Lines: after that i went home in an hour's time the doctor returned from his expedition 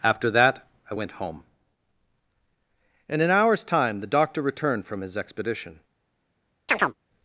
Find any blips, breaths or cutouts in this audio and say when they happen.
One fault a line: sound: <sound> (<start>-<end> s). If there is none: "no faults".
sound: chirp (6.7-7.0 s)